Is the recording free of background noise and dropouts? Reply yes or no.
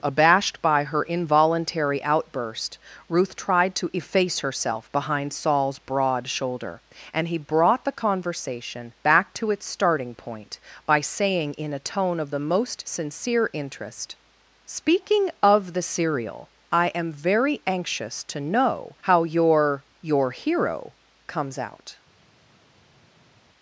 yes